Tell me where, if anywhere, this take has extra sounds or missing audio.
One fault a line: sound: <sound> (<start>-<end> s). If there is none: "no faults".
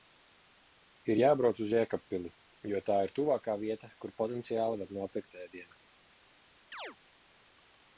sound: chirp (6.7-7.0 s)